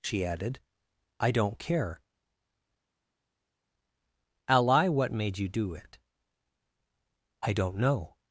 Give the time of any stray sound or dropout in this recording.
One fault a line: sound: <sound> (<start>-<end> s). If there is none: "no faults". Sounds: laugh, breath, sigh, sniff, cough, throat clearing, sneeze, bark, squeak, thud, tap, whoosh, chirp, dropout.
no faults